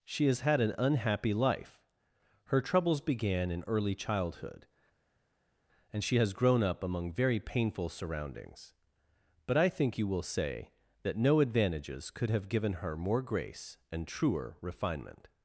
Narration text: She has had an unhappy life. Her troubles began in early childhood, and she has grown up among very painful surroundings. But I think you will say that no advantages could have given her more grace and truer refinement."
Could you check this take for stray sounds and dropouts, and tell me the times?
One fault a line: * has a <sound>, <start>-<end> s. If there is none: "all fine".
all fine